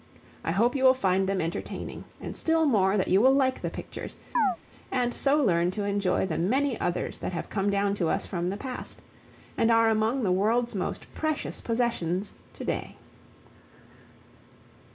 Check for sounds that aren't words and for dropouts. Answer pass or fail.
fail